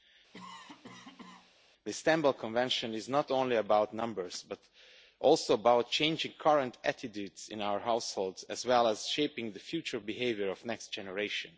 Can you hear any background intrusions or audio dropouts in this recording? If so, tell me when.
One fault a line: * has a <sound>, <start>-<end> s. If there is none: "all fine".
* has a cough, 0.3-1.5 s